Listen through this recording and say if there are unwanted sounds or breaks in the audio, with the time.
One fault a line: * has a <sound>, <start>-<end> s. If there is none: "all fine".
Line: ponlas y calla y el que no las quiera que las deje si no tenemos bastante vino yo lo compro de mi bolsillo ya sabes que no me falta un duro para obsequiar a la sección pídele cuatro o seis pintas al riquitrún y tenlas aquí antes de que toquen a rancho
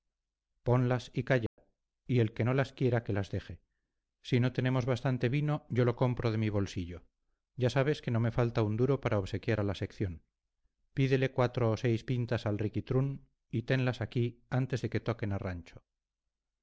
* has a dropout, 1.5-1.6 s